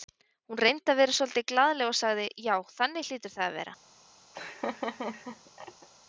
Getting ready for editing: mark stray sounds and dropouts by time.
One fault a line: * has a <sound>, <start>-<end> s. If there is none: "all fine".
* has a laugh, 4.3-5.9 s